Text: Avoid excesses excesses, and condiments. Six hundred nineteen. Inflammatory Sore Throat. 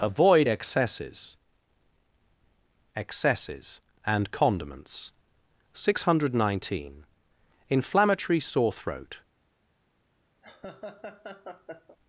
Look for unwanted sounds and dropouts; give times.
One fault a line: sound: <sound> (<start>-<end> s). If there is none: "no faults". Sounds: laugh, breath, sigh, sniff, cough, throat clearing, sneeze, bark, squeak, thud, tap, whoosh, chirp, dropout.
sound: laugh (10.4-12.0 s)